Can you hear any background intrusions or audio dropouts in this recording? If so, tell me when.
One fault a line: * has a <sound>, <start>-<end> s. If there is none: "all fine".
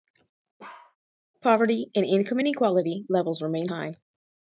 * has a bark, 0.6-1.0 s